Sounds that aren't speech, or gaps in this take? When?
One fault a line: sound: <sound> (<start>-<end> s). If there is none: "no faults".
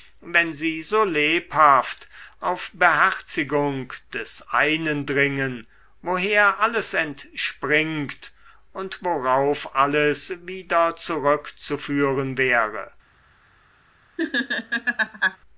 sound: laugh (14.2-15.4 s)